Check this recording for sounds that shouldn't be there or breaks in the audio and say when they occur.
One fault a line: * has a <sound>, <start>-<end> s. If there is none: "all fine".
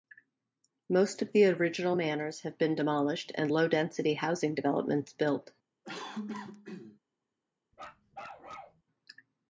* has a cough, 5.8-7.0 s
* has a bark, 7.7-8.8 s